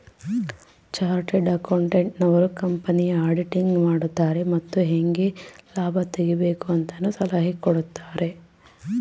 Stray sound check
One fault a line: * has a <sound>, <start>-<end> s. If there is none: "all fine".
all fine